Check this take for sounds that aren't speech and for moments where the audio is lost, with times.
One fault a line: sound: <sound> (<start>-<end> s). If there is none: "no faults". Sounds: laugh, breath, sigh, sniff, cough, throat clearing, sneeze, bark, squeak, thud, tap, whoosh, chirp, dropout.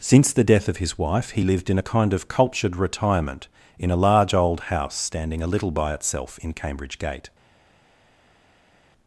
no faults